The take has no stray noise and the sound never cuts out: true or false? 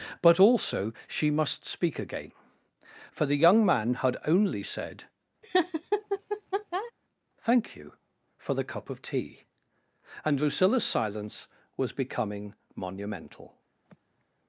false